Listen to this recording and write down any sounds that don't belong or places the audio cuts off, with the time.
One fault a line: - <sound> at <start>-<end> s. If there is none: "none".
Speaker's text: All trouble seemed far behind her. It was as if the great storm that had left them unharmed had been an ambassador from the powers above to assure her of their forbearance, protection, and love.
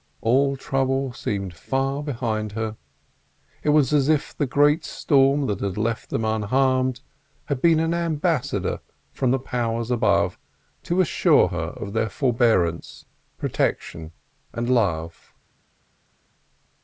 none